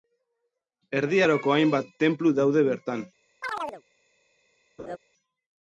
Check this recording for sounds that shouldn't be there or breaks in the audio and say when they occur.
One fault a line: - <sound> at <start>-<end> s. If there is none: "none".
- chirp at 3.4-3.8 s
- laugh at 4.8-5.0 s